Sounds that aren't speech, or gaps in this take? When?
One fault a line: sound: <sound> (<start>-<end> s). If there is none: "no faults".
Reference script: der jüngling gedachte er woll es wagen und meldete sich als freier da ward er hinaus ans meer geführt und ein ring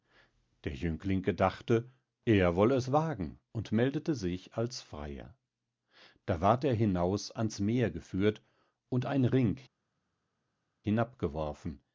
no faults